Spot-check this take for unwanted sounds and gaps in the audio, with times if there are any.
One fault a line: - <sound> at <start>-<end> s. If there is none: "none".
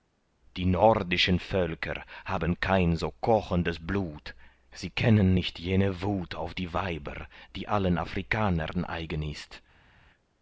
none